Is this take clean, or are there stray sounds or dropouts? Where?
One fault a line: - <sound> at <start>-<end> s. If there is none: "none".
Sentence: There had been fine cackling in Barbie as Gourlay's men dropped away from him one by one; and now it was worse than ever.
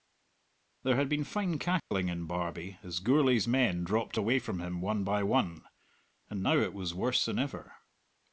- dropout at 1.8-1.9 s